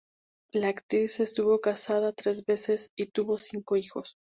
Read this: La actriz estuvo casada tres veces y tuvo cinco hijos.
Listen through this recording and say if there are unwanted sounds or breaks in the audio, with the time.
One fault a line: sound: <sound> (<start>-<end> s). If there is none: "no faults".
no faults